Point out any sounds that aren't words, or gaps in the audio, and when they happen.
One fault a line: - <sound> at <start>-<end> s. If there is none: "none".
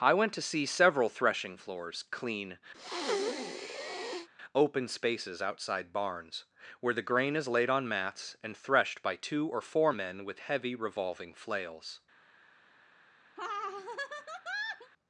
- breath at 2.7-4.3 s
- laugh at 13.4-14.9 s